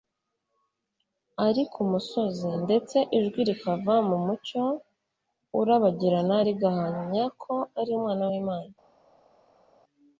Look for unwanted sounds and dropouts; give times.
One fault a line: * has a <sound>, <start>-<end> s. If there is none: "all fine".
all fine